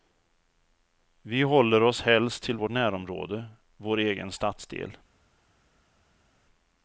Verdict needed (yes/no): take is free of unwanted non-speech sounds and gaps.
yes